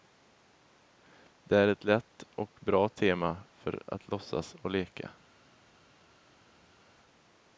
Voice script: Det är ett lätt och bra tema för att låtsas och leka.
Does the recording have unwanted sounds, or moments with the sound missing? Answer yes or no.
no